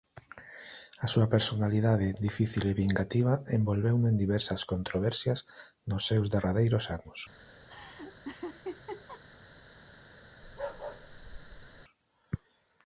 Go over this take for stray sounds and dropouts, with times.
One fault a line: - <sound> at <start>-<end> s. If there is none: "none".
- laugh at 7.7-9.2 s
- bark at 10.4-11.8 s